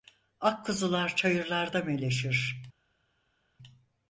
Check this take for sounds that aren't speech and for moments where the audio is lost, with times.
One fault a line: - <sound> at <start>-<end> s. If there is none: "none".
none